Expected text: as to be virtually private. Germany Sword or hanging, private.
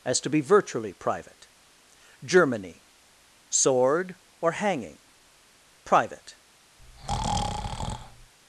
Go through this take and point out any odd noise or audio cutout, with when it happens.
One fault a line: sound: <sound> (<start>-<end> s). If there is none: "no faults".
sound: breath (6.8-8.3 s)